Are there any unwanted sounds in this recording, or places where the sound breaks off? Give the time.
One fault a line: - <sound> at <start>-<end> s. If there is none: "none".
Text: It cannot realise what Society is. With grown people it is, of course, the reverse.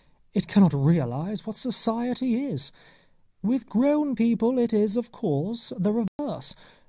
- dropout at 6.1-6.2 s